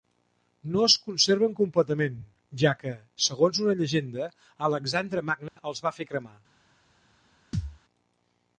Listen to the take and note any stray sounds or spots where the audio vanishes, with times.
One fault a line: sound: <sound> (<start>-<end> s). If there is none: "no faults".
sound: dropout (5.5-5.6 s)
sound: thud (7.5-7.8 s)